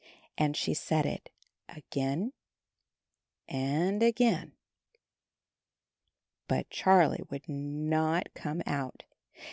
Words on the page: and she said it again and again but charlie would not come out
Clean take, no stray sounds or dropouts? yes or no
yes